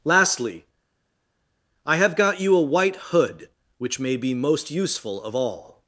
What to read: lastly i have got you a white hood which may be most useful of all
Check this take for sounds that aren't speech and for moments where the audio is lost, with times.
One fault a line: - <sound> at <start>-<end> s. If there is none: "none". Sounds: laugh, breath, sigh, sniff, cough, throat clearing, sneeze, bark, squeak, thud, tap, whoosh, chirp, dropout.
none